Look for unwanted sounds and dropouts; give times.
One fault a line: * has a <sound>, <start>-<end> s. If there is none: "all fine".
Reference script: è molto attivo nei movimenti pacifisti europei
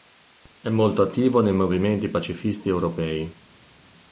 all fine